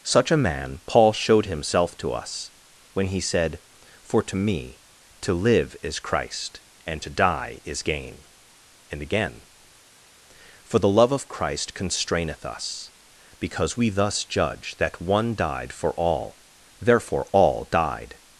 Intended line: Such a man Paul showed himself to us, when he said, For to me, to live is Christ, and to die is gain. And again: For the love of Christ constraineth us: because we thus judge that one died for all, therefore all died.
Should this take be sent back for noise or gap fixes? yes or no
no